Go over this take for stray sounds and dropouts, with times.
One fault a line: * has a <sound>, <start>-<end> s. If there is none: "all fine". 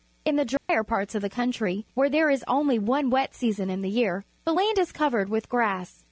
* has a dropout, 0.6-0.7 s